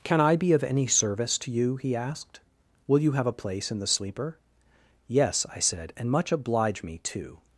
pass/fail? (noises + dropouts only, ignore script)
pass